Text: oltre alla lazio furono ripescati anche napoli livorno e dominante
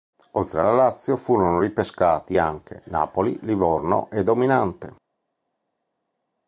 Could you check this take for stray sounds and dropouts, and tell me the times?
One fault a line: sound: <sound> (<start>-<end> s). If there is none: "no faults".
no faults